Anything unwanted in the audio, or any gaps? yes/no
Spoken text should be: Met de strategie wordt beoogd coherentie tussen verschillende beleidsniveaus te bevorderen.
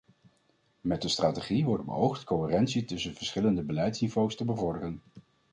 no